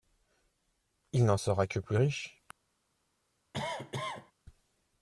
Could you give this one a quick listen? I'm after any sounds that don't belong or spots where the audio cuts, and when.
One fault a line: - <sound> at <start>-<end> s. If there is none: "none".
- cough at 3.5-4.3 s